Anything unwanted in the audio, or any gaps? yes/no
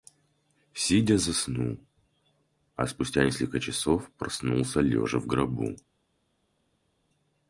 no